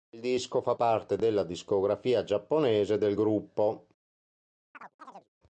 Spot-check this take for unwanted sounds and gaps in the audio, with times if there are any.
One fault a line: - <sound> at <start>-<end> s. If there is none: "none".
- chirp at 4.7-5.3 s